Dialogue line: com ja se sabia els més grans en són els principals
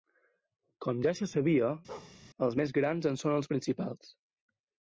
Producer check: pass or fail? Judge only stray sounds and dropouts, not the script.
fail